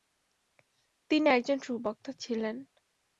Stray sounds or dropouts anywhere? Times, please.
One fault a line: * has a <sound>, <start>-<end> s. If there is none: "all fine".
all fine